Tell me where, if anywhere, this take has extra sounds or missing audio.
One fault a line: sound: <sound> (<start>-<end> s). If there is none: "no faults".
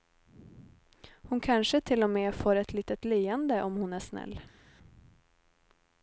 no faults